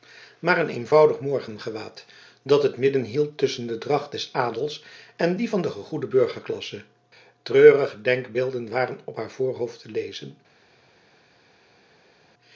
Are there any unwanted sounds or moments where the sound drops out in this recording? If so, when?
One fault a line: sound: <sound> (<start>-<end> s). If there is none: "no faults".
no faults